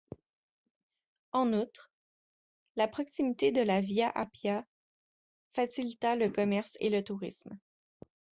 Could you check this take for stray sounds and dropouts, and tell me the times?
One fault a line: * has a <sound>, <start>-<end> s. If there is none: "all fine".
all fine